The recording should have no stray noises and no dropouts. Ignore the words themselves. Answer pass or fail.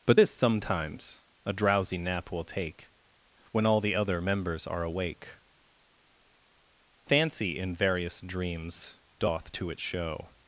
pass